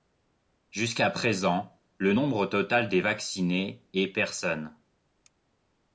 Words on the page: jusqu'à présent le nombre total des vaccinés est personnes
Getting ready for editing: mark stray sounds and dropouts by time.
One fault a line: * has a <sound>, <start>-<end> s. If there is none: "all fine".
all fine